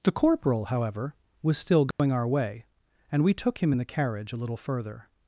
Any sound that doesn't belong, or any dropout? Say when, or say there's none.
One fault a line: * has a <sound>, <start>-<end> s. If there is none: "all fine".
* has a dropout, 1.9-2.0 s